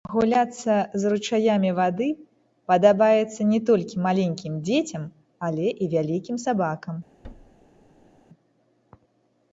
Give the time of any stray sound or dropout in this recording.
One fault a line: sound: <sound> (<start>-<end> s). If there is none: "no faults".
sound: thud (7.2-8.2 s)